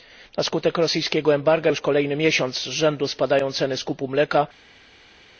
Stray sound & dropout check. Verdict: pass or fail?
pass